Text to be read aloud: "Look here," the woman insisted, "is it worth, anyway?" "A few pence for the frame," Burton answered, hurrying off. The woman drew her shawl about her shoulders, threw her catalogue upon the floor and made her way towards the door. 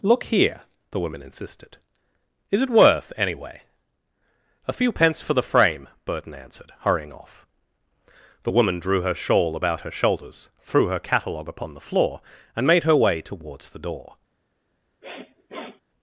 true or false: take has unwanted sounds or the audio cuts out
true